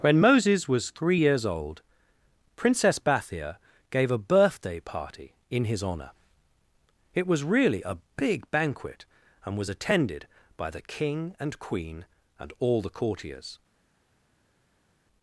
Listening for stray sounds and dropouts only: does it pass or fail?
pass